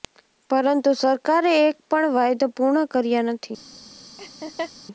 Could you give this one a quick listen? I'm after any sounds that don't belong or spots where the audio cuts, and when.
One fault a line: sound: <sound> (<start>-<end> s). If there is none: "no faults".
sound: laugh (4.2-4.7 s)